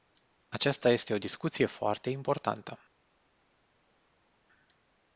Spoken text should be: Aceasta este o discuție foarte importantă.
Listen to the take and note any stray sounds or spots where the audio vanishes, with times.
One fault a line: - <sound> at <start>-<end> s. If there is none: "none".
none